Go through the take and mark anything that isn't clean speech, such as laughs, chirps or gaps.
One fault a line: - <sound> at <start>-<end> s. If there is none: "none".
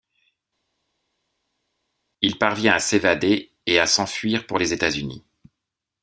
none